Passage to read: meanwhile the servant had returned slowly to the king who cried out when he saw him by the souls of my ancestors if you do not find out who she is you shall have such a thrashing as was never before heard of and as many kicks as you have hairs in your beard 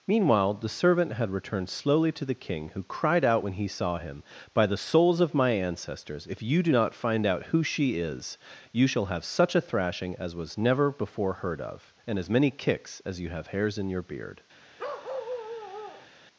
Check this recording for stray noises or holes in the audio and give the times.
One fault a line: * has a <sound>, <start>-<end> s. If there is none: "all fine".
* has a bark, 14.8-16.1 s